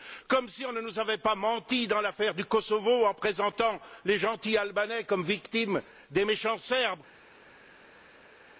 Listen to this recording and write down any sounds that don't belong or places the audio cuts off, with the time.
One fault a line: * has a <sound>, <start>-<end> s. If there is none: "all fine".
all fine